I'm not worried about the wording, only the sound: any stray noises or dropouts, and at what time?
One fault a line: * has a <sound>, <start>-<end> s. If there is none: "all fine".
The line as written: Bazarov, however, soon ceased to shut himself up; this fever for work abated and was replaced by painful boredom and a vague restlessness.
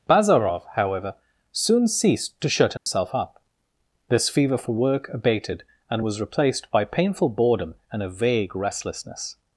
* has a dropout, 2.8-2.9 s